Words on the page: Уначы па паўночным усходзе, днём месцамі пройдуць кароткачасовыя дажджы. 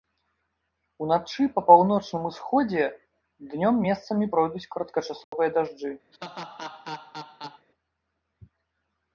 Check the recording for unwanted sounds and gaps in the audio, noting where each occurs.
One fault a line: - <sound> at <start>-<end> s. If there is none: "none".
- dropout at 5.2-5.3 s
- laugh at 6.1-7.7 s